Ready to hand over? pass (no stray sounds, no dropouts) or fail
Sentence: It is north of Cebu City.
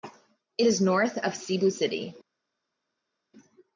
pass